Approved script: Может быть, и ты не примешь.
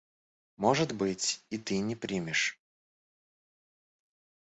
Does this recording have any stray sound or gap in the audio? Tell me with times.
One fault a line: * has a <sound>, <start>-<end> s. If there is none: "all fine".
all fine